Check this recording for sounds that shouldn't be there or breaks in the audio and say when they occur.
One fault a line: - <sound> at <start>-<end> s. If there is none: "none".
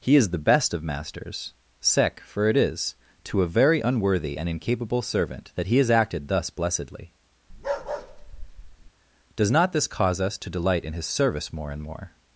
- bark at 7.5-8.9 s